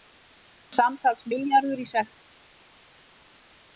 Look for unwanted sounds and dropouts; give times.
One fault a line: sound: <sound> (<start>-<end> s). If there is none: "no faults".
no faults